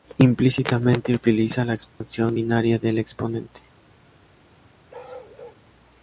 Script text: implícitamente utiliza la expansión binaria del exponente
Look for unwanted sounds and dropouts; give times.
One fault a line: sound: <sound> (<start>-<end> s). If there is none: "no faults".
sound: dropout (1.9-2.0 s)
sound: bark (4.9-5.6 s)